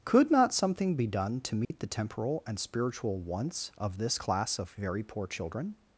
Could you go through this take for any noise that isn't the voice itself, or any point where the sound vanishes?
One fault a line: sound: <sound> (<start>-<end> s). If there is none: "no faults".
sound: dropout (1.6-1.7 s)